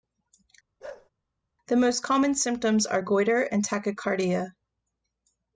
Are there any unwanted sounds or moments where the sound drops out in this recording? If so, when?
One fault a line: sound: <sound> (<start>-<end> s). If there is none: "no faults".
sound: bark (0.8-1.1 s)